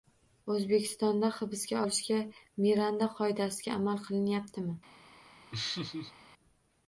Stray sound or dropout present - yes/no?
yes